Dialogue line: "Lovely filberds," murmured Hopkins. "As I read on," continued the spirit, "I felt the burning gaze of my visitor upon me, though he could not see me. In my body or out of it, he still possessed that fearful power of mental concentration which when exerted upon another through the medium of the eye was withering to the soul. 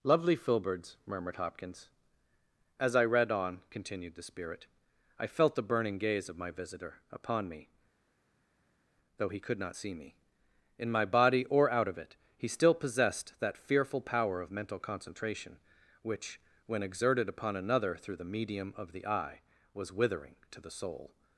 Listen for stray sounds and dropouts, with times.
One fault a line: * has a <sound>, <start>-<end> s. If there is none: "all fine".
all fine